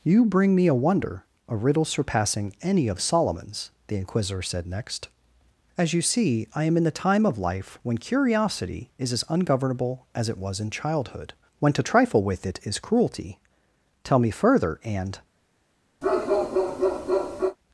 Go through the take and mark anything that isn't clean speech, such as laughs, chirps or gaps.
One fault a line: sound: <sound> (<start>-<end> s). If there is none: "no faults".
sound: bark (16.0-17.6 s)